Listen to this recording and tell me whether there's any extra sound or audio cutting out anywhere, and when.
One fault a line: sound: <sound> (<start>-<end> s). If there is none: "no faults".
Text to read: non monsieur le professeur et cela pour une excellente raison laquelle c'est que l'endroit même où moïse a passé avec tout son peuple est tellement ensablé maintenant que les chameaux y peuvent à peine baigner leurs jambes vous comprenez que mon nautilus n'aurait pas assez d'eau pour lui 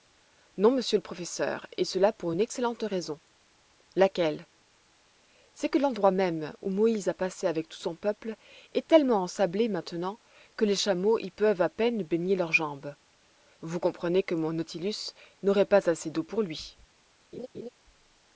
sound: laugh (17.3-17.7 s)